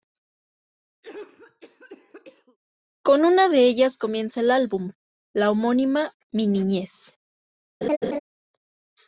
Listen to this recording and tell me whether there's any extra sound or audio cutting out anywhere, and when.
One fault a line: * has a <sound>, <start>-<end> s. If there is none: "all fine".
* has a cough, 1.0-2.6 s
* has a laugh, 7.8-8.2 s